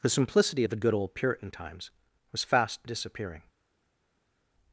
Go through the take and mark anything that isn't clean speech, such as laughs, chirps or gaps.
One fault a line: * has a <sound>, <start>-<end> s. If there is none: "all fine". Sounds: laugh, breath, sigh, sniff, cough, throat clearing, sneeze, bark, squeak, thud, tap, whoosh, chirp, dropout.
all fine